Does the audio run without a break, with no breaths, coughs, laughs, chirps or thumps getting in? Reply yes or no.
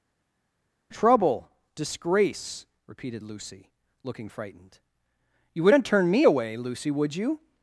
yes